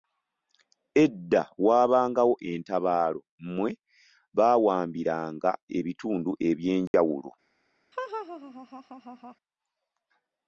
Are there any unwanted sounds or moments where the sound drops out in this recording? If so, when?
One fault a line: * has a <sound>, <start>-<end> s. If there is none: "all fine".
* has a dropout, 6.9-6.9 s
* has a laugh, 7.9-9.4 s